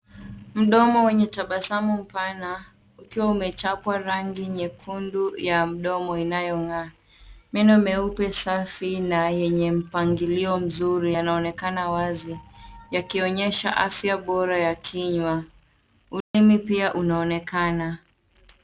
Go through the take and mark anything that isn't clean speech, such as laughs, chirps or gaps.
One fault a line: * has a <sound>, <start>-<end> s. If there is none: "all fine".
* has a dropout, 16.2-16.3 s